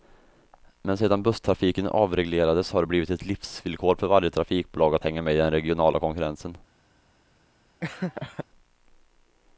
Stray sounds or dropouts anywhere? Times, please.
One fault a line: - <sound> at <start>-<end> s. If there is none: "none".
- laugh at 7.8-8.4 s